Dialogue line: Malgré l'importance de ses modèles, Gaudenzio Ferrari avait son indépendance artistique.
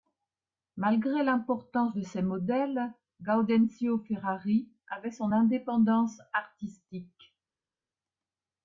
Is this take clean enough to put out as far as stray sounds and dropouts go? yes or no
yes